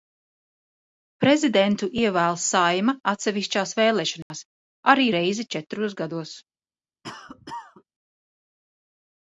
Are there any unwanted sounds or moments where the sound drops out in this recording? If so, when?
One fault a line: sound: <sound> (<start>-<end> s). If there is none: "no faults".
sound: dropout (4.2-4.3 s)
sound: cough (7.0-7.8 s)